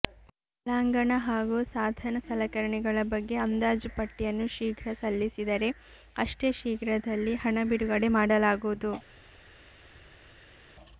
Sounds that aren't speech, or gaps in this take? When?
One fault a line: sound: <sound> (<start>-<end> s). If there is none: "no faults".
no faults